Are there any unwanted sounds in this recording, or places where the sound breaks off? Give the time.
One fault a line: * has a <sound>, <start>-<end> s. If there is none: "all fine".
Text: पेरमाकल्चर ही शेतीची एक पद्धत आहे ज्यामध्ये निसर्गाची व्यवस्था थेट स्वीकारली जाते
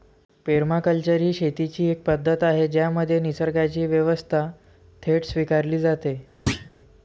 * has a thud, 6.5-6.7 s